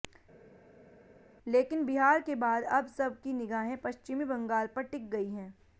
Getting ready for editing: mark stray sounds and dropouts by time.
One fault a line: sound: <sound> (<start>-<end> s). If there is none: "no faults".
no faults